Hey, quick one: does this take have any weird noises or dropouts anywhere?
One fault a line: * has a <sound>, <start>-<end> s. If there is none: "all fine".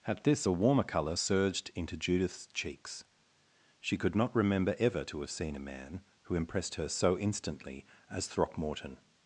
all fine